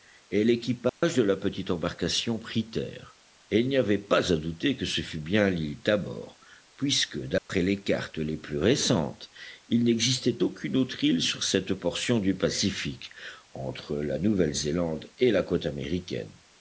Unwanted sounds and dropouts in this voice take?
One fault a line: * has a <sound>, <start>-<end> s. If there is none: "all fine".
* has a dropout, 0.9-1.0 s
* has a dropout, 7.4-7.5 s